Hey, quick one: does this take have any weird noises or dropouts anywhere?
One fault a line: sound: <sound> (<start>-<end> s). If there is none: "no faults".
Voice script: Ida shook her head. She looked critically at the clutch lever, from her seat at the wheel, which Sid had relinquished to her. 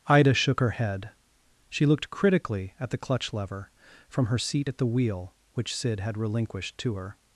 no faults